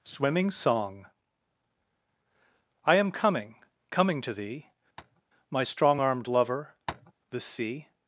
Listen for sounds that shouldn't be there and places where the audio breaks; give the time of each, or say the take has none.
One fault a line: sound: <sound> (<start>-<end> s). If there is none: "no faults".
sound: tap (5.0-5.2 s)
sound: tap (6.9-7.1 s)